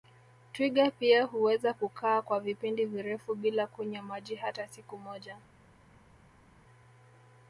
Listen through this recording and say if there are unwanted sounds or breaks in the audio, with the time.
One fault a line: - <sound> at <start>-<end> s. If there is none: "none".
none